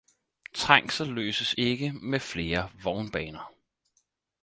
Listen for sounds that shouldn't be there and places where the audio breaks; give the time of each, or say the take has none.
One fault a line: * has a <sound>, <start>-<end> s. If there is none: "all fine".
all fine